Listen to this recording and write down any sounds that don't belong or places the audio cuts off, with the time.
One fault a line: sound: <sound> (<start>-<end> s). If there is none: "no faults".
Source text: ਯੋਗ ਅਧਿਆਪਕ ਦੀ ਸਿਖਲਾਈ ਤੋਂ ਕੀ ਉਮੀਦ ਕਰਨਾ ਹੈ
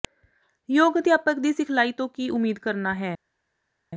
no faults